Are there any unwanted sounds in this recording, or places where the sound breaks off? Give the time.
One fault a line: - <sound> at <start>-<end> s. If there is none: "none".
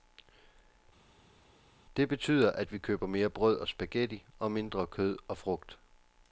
none